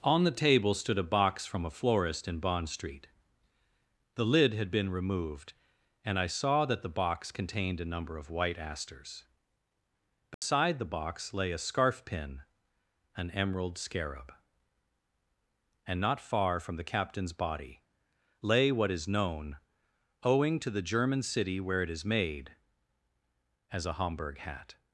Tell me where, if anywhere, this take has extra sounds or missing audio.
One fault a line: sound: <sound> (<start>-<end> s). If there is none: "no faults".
sound: dropout (10.3-10.4 s)